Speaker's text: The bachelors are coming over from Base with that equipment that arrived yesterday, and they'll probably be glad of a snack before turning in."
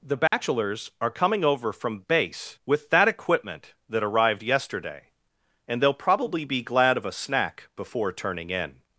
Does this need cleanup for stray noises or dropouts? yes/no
yes